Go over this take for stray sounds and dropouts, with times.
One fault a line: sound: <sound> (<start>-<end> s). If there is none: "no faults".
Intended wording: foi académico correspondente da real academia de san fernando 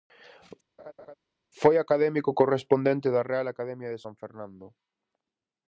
sound: laugh (0.8-1.1 s)